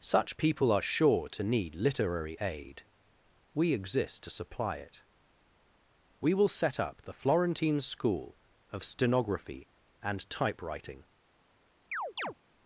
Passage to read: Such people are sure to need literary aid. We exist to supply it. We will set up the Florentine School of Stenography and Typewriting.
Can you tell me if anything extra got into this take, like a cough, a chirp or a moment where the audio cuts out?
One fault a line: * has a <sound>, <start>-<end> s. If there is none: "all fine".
* has a chirp, 11.9-12.3 s